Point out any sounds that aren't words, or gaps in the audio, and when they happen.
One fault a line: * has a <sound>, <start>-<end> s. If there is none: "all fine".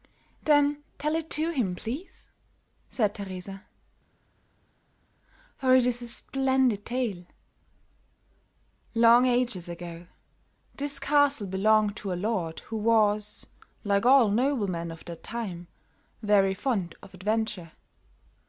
all fine